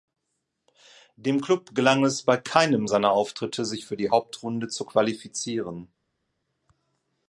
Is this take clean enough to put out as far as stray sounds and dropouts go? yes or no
yes